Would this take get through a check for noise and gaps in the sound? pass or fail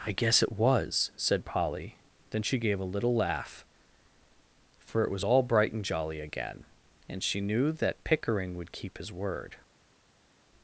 pass